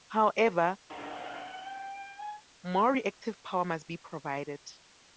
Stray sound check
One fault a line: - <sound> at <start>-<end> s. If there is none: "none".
- squeak at 0.9-2.4 s